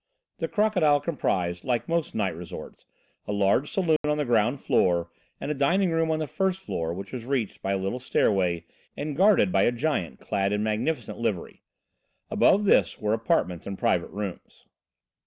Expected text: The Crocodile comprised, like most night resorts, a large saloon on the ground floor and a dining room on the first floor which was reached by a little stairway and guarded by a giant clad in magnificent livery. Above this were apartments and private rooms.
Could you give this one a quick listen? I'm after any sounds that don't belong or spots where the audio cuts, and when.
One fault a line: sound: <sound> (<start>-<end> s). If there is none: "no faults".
sound: dropout (4.0-4.0 s)